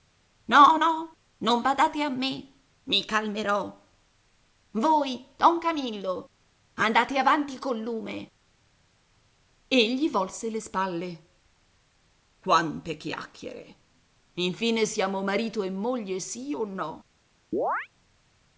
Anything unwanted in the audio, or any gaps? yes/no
yes